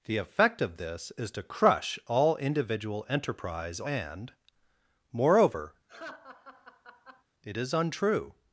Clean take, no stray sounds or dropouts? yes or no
no